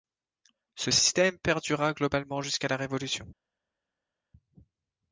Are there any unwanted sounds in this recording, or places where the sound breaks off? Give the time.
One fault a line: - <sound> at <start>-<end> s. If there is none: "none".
none